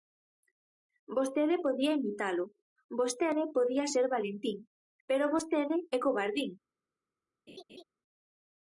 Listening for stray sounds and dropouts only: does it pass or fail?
fail